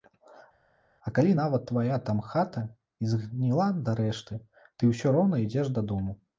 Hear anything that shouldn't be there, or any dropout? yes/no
no